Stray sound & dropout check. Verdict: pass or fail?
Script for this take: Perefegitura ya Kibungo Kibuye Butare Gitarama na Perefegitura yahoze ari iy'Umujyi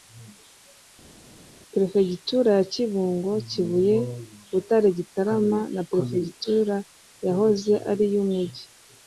pass